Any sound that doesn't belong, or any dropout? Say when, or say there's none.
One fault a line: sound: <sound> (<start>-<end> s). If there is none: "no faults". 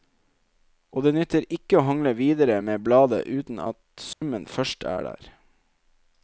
sound: dropout (4.1-4.2 s)